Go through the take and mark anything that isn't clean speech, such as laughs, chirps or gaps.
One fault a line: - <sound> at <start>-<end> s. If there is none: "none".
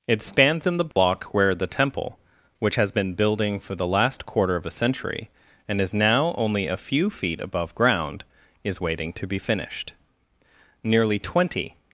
- dropout at 0.9-1.0 s